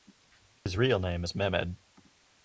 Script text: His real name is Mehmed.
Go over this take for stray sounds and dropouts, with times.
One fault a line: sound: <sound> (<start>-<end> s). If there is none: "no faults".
sound: dropout (0.6-0.7 s)